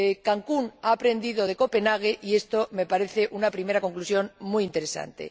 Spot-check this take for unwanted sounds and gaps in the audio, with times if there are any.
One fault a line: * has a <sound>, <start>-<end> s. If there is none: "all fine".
all fine